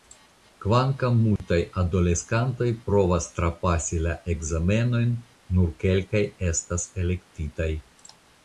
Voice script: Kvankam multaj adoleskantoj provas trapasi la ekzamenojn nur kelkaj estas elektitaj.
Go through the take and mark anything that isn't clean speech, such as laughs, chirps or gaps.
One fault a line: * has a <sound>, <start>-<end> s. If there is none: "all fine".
* has a dropout, 1.4-1.4 s